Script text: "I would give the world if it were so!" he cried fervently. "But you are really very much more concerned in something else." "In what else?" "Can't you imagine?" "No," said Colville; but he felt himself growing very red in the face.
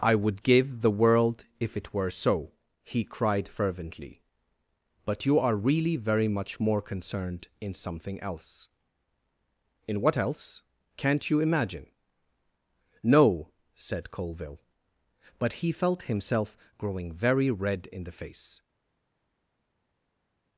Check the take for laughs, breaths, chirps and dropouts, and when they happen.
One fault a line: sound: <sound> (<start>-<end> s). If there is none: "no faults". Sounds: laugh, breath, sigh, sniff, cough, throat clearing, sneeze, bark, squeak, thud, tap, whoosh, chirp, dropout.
no faults